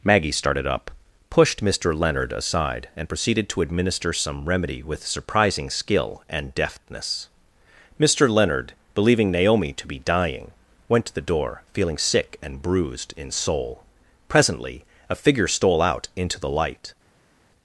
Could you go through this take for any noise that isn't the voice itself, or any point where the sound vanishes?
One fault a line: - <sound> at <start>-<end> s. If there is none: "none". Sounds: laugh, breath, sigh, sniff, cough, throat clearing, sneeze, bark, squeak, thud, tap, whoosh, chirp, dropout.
none